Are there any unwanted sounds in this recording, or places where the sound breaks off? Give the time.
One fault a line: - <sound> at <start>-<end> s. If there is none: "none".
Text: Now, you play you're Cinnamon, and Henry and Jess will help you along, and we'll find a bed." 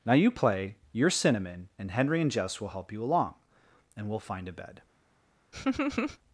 - laugh at 5.5-6.2 s